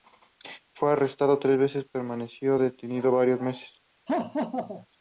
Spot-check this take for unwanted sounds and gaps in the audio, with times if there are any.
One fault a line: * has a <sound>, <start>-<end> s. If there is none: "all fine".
* has a laugh, 4.1-4.9 s